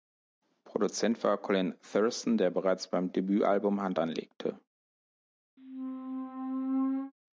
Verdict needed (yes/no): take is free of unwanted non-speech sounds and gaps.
no